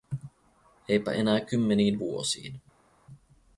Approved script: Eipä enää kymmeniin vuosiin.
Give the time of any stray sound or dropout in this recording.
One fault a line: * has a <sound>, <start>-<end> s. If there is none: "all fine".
all fine